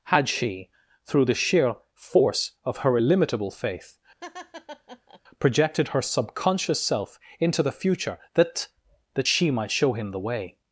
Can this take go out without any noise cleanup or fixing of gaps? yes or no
no